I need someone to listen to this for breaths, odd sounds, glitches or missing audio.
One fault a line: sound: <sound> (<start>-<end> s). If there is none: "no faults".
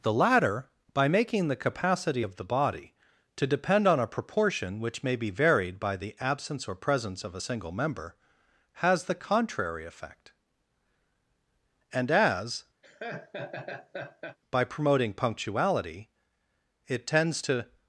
sound: laugh (12.8-14.4 s)